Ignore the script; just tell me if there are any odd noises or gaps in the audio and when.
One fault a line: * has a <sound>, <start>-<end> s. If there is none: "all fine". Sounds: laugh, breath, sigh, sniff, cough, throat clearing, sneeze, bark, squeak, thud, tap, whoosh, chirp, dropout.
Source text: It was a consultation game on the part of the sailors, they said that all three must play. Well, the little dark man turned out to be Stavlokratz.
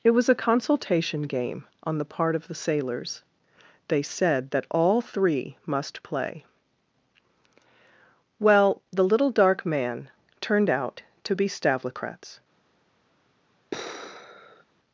* has a sigh, 13.7-14.6 s